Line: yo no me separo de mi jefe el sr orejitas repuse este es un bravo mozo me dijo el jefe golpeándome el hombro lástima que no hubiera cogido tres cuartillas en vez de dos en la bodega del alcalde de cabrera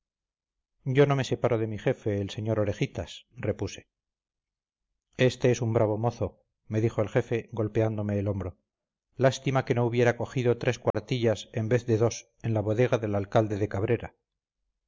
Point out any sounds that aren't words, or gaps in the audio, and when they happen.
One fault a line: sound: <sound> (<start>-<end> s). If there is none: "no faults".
sound: dropout (10.9-10.9 s)